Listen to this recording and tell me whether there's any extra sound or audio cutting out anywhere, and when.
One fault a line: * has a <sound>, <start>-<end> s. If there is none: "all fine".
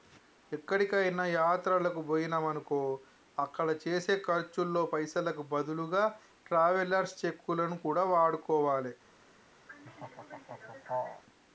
* has a laugh, 9.7-11.2 s